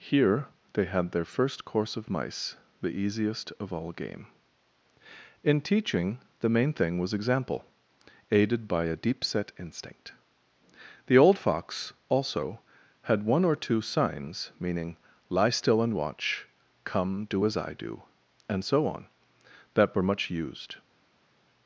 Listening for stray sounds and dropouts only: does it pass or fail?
pass